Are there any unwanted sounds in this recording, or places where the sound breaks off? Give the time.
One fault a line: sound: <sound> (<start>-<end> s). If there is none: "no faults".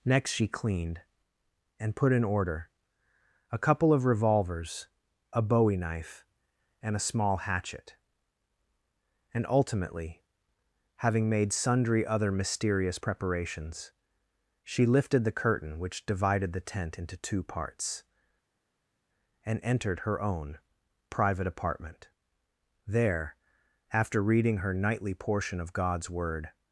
no faults